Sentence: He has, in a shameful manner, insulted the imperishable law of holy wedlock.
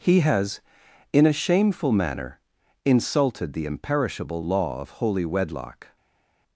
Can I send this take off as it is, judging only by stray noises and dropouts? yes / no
yes